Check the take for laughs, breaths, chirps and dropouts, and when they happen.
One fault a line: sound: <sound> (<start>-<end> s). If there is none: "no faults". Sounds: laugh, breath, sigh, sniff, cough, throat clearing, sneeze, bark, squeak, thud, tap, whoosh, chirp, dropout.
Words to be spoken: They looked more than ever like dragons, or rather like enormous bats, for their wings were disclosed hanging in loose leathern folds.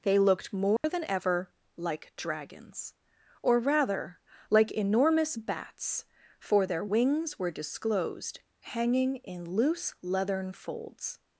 sound: dropout (0.8-0.8 s)